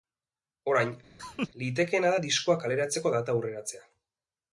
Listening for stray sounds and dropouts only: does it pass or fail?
fail